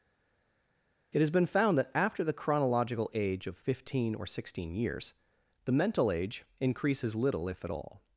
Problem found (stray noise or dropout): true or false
false